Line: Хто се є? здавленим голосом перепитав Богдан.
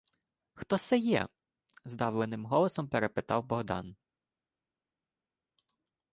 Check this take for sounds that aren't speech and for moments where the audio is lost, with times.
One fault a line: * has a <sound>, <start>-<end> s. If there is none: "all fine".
all fine